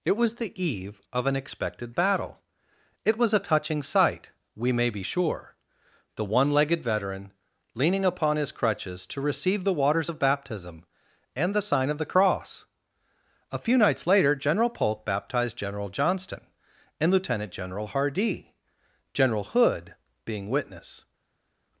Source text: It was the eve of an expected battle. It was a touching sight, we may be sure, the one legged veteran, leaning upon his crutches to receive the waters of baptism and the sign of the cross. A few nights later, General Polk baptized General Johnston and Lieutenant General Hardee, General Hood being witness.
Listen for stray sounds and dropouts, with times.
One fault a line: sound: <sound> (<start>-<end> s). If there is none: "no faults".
no faults